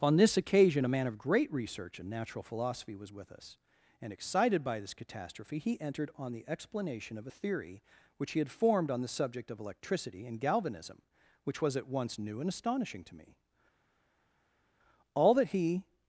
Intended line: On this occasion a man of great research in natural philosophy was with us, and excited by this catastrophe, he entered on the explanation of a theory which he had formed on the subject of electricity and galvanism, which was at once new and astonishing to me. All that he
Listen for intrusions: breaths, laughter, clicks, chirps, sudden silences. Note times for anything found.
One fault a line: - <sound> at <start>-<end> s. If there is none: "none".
none